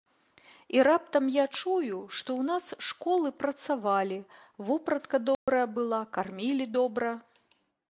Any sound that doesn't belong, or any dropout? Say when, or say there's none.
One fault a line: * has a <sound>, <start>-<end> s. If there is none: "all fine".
* has a dropout, 5.3-5.5 s